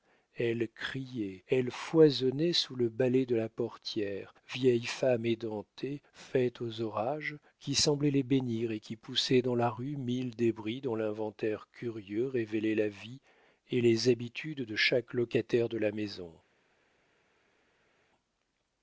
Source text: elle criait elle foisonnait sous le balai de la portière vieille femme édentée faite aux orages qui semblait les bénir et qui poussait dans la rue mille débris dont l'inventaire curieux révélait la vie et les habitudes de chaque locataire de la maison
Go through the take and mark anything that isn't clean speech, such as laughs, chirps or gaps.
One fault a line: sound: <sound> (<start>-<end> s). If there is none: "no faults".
no faults